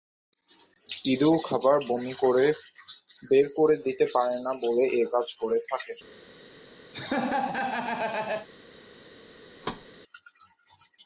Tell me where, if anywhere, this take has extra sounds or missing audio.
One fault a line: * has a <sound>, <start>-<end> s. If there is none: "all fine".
* has a laugh, 6.9-8.5 s
* has a thud, 9.6-9.9 s